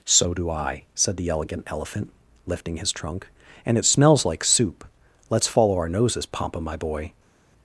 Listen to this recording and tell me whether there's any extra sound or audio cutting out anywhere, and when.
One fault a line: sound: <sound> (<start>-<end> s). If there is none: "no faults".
no faults